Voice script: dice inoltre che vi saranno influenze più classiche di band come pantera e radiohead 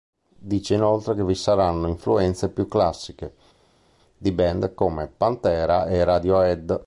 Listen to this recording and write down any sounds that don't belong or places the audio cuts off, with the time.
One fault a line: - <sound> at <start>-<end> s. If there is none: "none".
none